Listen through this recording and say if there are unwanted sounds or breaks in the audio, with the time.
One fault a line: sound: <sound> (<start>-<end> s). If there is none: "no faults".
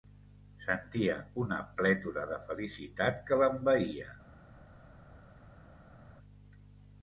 no faults